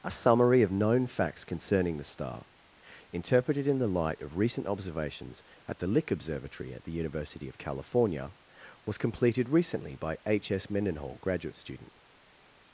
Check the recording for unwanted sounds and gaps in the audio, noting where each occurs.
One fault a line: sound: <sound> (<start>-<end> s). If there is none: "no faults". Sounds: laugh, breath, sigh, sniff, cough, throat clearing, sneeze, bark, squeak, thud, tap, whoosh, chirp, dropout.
no faults